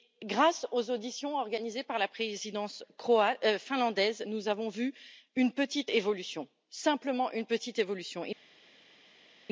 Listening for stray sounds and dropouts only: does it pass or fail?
pass